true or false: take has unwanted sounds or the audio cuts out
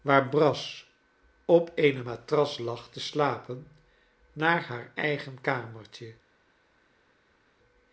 false